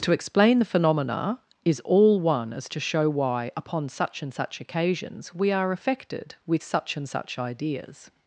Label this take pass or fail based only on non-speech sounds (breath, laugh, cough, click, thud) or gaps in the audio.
pass